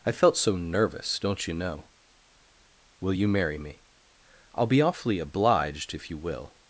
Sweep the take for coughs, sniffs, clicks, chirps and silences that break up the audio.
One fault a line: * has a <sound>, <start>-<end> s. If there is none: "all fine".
all fine